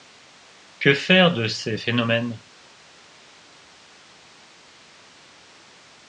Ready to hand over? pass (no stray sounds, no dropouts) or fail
pass